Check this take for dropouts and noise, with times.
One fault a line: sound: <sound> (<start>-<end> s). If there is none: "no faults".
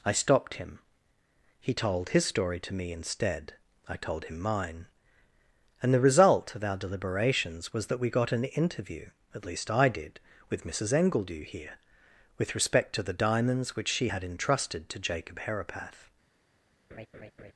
sound: laugh (16.9-17.5 s)